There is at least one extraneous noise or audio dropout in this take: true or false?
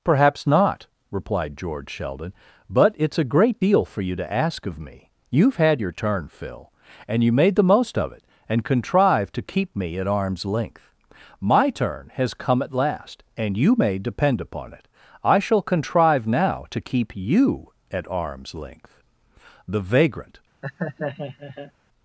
true